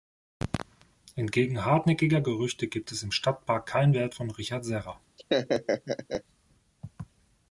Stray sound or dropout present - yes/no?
yes